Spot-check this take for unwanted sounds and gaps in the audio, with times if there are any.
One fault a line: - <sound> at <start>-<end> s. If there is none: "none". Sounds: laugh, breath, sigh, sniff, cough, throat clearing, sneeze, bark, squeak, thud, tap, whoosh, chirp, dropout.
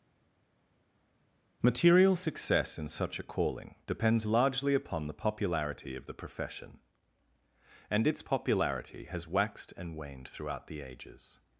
none